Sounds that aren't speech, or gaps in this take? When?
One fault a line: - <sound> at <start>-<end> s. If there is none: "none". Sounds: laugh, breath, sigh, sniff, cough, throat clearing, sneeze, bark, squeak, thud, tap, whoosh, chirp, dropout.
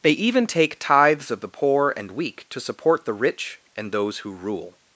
none